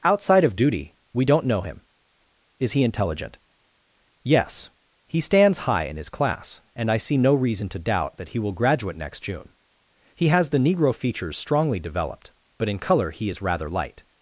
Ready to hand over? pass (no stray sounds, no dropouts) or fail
pass